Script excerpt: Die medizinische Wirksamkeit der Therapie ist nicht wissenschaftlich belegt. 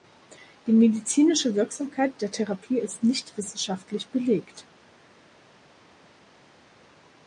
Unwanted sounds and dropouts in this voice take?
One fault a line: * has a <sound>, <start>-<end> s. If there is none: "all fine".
all fine